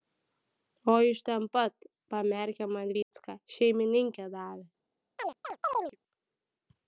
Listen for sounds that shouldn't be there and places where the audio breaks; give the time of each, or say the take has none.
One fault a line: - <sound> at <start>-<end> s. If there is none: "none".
- dropout at 3.0-3.1 s
- chirp at 5.2-6.0 s